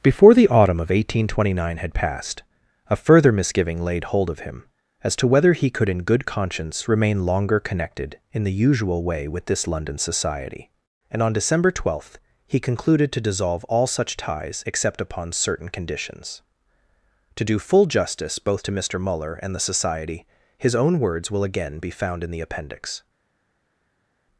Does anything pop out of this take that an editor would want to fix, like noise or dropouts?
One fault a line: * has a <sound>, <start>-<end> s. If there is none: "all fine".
all fine